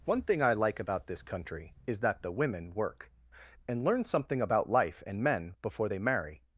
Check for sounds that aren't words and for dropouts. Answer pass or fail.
pass